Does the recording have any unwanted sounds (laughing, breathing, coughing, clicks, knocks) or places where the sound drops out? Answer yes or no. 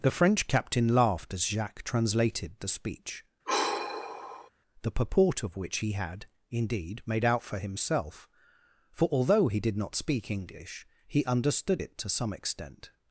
yes